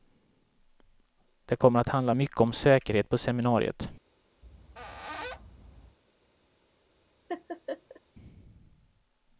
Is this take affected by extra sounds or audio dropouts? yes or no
yes